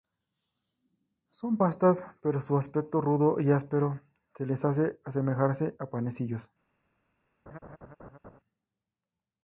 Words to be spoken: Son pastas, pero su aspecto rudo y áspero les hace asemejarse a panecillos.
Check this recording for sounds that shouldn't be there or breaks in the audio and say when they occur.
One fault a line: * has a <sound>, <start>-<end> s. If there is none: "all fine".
* has a laugh, 7.5-8.4 s